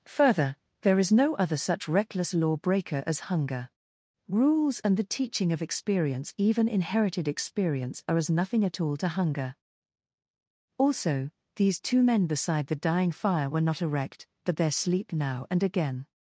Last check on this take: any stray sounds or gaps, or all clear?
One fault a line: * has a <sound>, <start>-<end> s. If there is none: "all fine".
all fine